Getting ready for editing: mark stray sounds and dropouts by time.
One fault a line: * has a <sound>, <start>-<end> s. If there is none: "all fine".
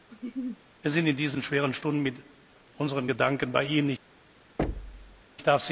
* has a laugh, 0.1-0.6 s
* has a thud, 4.6-5.2 s